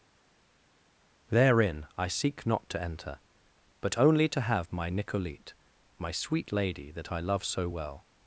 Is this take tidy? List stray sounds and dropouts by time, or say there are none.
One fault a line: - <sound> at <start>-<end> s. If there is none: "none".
none